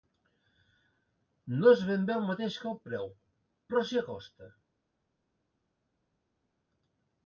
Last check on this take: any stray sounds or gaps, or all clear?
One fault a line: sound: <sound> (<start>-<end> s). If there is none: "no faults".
no faults